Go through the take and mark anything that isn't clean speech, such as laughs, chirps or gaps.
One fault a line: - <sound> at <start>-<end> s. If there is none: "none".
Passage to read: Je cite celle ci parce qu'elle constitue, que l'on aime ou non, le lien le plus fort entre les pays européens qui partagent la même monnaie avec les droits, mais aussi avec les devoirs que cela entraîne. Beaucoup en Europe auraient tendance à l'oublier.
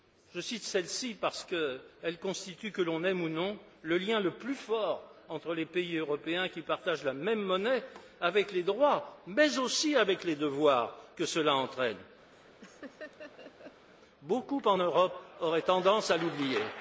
- laugh at 12.3-13.9 s